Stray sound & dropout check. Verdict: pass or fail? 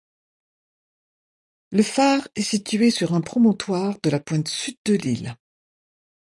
pass